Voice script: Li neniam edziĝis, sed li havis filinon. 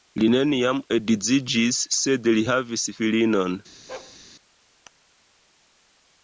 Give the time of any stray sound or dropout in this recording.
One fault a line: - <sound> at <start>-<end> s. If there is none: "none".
- bark at 3.9-4.2 s